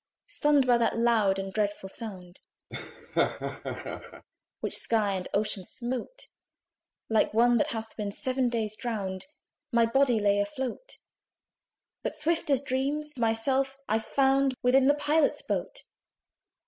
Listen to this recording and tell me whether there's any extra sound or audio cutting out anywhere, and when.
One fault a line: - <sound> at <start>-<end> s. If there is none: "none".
- laugh at 2.7-4.2 s